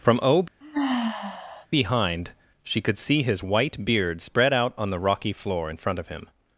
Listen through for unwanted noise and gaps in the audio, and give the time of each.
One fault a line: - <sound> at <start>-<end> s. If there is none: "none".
- sigh at 0.6-1.7 s